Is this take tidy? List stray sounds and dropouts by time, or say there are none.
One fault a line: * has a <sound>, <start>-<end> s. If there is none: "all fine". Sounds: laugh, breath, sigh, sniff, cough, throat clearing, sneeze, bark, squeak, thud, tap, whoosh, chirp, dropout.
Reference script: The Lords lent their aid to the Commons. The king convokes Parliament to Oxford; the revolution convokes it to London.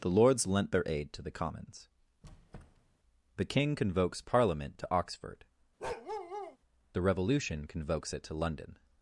* has a squeak, 2.2-3.0 s
* has a bark, 5.8-6.6 s